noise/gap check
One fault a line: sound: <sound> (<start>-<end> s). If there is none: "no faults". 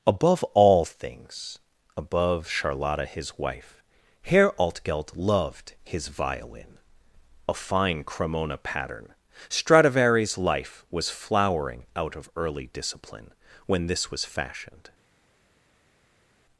no faults